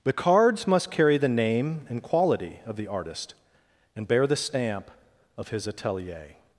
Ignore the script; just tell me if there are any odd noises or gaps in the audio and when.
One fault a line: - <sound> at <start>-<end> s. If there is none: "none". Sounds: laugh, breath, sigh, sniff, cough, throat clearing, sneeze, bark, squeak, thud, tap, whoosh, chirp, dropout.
none